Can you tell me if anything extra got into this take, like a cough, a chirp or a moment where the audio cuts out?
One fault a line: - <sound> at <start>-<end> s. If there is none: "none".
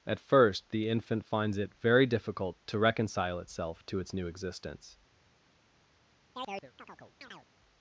- chirp at 6.3-7.5 s